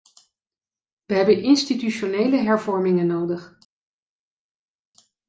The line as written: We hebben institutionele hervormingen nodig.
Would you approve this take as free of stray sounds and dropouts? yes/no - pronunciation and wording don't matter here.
yes